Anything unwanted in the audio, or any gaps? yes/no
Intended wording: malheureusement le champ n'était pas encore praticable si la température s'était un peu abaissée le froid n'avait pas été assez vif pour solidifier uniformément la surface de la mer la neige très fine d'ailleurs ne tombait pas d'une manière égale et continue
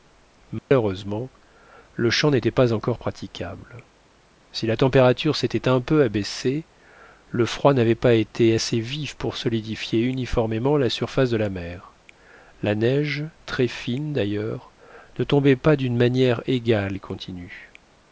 yes